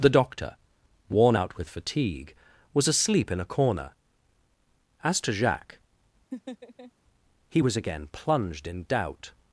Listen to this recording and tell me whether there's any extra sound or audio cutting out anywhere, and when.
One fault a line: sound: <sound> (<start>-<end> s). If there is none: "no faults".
sound: laugh (6.3-6.9 s)